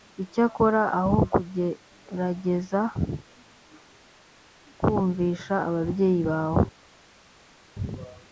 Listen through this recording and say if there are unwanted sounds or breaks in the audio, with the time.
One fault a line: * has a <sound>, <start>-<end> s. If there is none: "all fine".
all fine